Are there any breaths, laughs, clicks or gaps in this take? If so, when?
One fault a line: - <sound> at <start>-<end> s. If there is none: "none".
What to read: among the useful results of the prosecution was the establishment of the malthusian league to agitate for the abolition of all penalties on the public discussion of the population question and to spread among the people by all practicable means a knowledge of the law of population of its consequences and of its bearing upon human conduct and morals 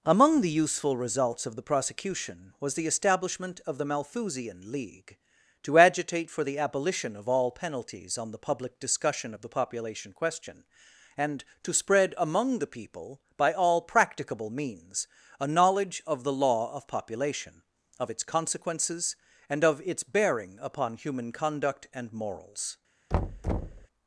- thud at 23.1-23.9 s